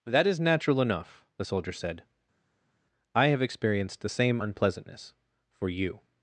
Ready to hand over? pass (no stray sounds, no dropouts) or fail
pass